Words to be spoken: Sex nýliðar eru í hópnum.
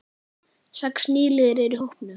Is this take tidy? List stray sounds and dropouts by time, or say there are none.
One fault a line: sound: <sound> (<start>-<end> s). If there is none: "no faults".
no faults